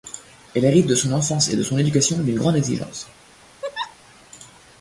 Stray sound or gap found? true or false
true